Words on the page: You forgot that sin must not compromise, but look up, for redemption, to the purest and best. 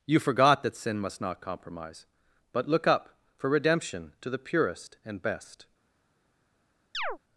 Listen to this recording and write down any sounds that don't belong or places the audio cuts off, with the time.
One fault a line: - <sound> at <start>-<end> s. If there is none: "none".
- chirp at 6.9-7.2 s